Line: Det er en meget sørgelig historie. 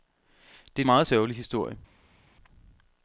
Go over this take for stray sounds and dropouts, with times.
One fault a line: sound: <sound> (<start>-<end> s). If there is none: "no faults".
no faults